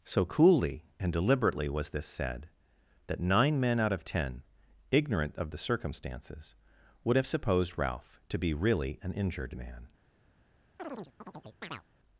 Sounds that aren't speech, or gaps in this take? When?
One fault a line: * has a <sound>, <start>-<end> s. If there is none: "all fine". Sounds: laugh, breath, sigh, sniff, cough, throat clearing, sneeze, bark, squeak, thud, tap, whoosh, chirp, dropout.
* has a chirp, 10.8-11.8 s